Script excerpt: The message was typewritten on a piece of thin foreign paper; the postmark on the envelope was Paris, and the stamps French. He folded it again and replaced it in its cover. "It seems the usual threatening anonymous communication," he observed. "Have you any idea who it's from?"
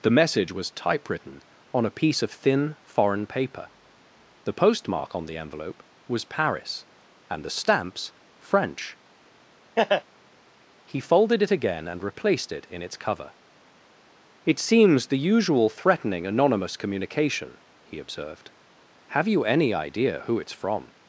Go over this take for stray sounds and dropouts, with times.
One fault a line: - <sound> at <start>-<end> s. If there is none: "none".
- laugh at 9.8-10.0 s